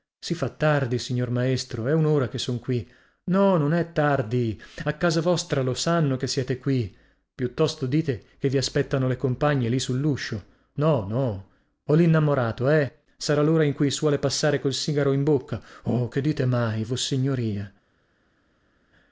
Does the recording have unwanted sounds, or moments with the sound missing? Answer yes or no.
no